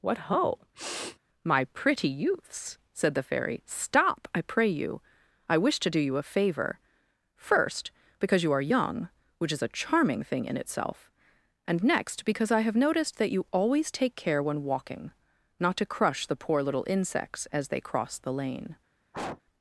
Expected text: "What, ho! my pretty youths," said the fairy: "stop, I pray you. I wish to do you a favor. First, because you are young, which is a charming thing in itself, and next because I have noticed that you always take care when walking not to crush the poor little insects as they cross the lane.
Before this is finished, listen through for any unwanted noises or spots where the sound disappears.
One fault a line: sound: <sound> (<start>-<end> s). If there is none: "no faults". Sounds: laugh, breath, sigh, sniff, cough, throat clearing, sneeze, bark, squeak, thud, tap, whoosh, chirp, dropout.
sound: sniff (0.7-1.2 s)
sound: sniff (19.1-19.4 s)